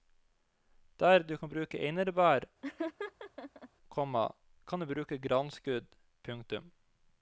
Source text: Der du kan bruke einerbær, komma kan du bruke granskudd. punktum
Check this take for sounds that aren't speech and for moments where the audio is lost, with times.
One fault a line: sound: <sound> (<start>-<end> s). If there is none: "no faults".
sound: laugh (2.6-3.7 s)